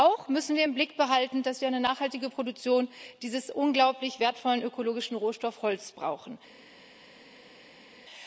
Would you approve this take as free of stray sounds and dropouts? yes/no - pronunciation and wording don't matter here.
yes